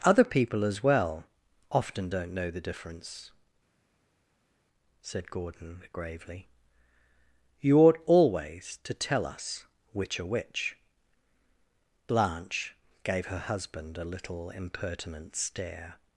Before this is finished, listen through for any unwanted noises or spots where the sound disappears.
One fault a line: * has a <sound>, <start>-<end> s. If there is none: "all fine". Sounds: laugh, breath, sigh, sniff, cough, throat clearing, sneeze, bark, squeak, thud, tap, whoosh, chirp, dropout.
all fine